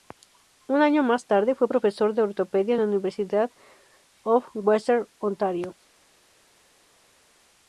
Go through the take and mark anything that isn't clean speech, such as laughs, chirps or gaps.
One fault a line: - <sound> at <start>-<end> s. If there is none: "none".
none